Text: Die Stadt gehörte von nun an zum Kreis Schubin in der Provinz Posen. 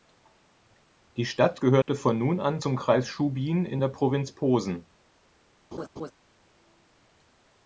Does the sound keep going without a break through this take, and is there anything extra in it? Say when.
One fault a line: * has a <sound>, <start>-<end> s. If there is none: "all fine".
* has a dropout, 1.8-1.9 s
* has a laugh, 5.7-6.1 s